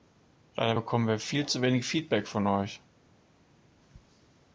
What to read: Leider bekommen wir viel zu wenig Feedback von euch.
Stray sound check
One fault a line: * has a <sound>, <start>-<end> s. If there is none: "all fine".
all fine